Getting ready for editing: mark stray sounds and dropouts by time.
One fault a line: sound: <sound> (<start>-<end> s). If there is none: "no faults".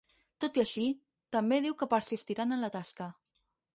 no faults